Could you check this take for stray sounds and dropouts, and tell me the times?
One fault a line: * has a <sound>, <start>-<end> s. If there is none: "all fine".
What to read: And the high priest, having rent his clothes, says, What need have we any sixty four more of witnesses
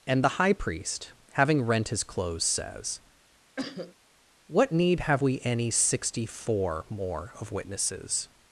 * has a cough, 3.6-3.9 s